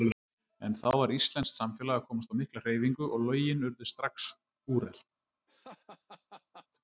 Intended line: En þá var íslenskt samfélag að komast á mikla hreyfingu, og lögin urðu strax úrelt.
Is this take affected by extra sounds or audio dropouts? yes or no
yes